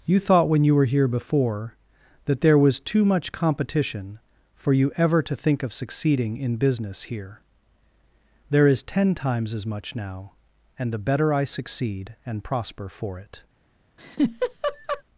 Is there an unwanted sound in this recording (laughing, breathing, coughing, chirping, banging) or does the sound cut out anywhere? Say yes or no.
yes